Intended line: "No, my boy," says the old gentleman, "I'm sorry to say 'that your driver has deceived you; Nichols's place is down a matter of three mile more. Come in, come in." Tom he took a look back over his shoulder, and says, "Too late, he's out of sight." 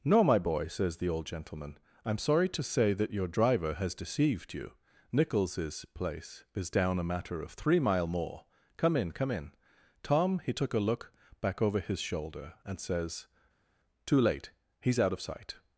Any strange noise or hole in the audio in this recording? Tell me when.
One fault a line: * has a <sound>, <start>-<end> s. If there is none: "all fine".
all fine